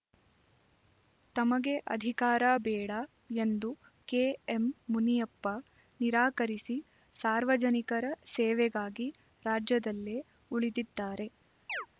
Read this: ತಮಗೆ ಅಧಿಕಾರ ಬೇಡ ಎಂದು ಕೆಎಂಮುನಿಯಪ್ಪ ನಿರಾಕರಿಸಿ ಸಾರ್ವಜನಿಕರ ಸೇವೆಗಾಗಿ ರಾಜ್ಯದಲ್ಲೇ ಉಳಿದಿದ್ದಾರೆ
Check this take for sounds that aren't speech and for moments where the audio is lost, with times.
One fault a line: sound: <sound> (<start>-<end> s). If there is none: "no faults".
sound: chirp (11.7-11.9 s)